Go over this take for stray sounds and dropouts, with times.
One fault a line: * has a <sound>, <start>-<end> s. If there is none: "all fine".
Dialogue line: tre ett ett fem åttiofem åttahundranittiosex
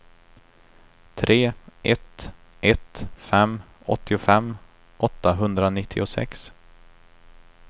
all fine